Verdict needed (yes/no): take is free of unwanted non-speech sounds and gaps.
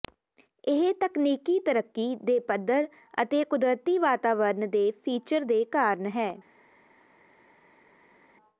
yes